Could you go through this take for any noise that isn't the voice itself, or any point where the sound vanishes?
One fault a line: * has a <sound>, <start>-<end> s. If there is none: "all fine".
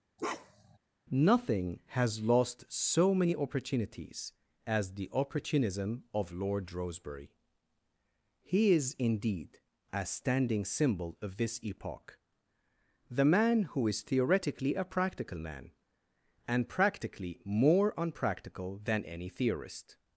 * has a bark, 0.2-0.8 s